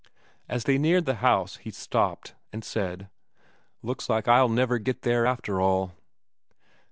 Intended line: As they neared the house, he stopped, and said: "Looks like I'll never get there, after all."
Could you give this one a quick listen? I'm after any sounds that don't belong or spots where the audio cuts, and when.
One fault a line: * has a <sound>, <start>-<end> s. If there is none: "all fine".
all fine